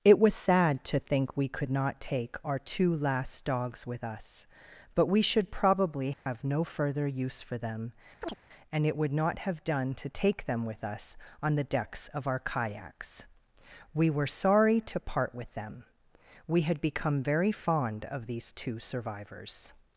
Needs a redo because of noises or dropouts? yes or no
yes